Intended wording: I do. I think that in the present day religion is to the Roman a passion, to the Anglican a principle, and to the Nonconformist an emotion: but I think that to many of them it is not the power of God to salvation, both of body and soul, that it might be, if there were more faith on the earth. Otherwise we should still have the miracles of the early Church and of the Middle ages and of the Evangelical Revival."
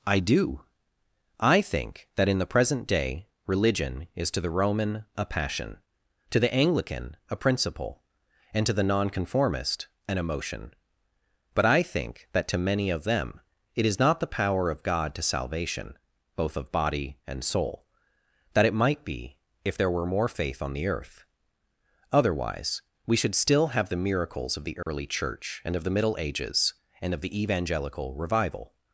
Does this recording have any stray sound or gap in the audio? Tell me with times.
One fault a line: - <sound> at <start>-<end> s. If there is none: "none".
- dropout at 24.8-24.9 s